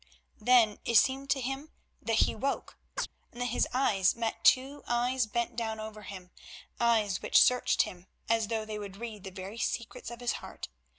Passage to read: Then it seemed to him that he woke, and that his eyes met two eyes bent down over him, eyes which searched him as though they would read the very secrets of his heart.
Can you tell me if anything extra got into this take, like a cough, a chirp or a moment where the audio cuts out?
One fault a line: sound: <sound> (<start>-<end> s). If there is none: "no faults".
sound: chirp (3.0-3.1 s)